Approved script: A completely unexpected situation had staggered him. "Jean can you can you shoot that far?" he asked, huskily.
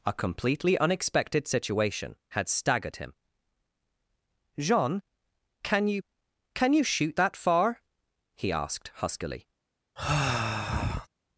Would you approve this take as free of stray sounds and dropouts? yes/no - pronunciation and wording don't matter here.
no